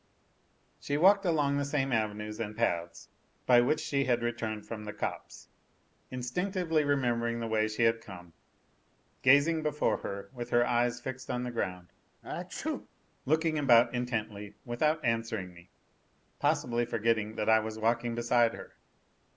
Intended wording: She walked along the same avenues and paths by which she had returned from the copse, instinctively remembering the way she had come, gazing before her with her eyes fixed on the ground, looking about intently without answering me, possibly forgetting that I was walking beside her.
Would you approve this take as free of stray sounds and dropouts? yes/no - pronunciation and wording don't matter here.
no